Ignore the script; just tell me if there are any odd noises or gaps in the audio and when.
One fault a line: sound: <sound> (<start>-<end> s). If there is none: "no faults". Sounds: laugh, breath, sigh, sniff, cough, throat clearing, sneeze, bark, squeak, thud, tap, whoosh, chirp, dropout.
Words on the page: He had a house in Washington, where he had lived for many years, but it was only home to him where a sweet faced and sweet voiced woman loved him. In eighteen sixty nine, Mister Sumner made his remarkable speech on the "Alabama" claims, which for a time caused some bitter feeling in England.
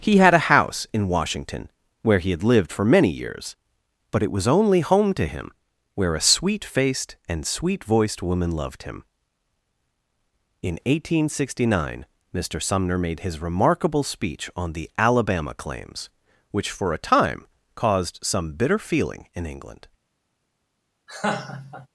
sound: laugh (21.1-21.9 s)